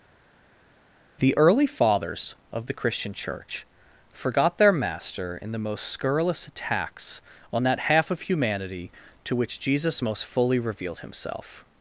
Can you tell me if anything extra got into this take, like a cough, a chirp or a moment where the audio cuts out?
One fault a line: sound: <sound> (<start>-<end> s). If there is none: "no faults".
no faults